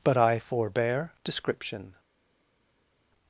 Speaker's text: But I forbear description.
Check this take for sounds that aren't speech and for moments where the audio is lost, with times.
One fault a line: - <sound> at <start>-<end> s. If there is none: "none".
none